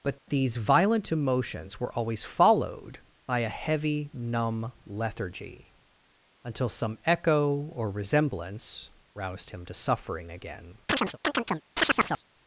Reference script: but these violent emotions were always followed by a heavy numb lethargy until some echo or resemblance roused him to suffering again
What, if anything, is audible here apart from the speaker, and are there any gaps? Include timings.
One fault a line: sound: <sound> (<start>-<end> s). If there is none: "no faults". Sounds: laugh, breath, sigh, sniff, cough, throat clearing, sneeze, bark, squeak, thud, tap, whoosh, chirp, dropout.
sound: chirp (10.9-12.2 s)